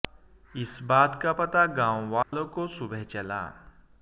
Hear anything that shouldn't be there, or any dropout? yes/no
yes